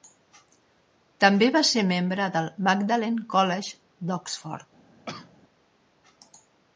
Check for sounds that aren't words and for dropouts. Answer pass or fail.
fail